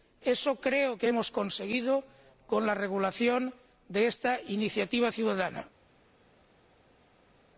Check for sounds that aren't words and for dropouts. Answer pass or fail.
pass